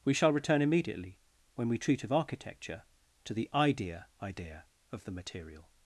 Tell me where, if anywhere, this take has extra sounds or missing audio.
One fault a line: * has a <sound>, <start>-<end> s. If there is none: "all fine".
all fine